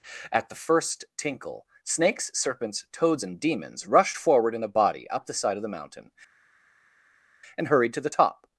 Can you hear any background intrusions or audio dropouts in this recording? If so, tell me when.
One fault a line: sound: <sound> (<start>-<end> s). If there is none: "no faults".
no faults